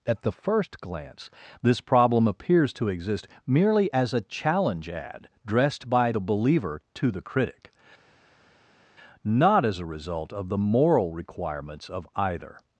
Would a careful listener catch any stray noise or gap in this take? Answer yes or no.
no